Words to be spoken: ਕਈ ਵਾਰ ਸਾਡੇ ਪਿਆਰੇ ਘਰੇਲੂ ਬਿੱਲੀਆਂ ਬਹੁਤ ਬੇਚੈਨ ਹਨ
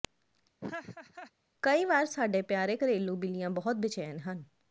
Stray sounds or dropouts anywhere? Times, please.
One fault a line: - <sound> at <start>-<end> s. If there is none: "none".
- laugh at 0.6-1.3 s